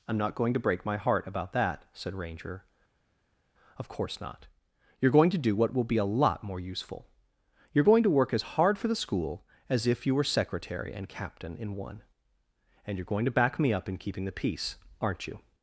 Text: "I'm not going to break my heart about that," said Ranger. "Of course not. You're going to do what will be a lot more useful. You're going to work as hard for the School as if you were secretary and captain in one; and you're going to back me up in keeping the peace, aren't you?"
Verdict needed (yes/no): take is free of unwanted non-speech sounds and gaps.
yes